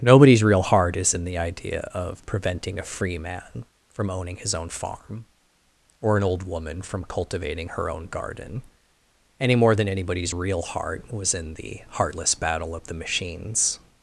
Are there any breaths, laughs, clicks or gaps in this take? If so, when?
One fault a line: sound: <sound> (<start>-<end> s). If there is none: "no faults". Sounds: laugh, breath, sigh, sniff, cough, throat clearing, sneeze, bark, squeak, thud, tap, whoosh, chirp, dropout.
no faults